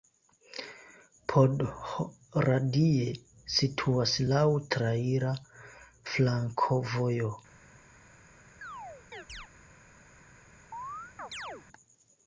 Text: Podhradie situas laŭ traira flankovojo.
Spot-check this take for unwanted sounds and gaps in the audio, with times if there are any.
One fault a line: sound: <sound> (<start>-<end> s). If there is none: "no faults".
sound: chirp (8.6-9.5 s)
sound: chirp (10.7-11.6 s)